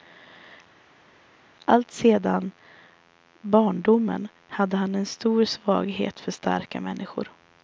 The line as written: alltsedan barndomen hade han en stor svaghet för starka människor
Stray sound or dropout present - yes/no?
no